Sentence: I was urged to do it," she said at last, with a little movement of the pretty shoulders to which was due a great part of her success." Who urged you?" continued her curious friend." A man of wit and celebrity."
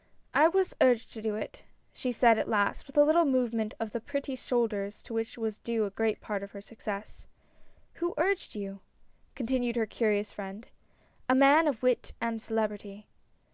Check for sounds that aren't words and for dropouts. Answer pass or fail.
pass